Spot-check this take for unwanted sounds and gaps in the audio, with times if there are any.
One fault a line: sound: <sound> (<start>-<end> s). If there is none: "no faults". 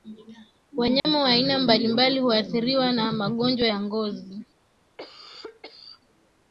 sound: dropout (1.0-1.0 s)
sound: cough (5.0-6.0 s)